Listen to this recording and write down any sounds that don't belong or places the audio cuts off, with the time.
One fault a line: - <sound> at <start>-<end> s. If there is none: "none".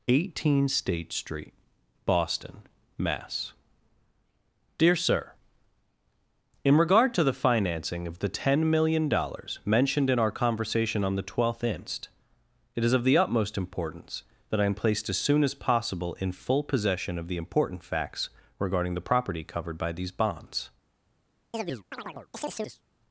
- chirp at 21.5-22.8 s